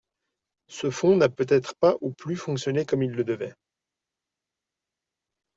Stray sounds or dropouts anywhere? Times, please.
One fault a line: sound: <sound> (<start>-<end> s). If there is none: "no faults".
no faults